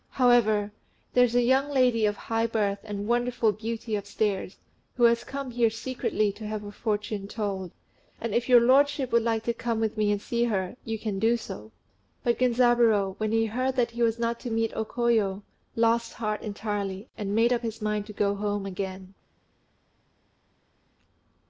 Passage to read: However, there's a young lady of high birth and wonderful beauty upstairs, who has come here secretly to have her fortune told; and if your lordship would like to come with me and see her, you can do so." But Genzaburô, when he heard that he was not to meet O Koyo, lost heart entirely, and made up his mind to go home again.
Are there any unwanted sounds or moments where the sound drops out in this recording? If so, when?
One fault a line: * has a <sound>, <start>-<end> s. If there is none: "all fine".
all fine